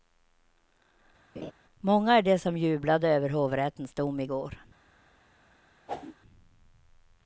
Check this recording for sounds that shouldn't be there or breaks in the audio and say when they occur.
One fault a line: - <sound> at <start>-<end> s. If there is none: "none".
- laugh at 1.3-1.5 s
- whoosh at 5.9-6.2 s